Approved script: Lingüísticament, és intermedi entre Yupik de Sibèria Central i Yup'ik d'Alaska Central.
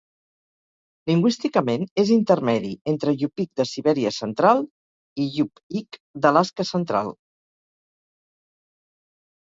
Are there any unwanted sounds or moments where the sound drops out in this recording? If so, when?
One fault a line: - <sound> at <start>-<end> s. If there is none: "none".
none